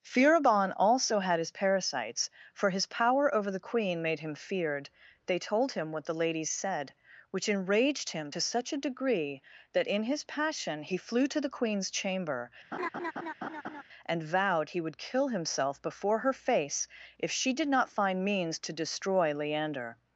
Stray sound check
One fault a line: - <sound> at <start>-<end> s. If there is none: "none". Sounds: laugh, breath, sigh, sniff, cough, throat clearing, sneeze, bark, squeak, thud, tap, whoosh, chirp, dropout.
- laugh at 12.7-13.8 s